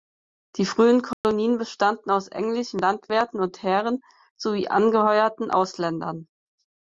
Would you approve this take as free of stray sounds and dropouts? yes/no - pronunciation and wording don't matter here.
no